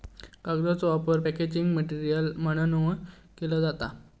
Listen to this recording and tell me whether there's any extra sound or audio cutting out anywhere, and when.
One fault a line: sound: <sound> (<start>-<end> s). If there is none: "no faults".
no faults